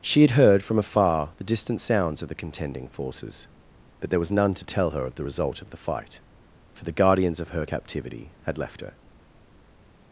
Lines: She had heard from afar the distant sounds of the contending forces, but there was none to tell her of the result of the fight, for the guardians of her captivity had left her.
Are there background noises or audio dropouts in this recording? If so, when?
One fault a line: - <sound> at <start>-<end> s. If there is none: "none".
none